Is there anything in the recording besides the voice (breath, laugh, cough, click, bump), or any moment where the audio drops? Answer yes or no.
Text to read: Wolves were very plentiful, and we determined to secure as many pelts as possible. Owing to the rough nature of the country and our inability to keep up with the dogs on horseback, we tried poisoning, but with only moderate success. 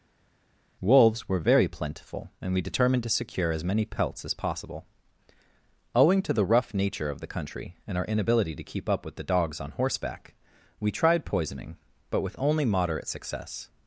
no